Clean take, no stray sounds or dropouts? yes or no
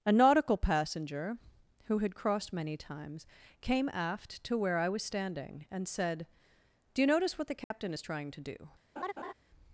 no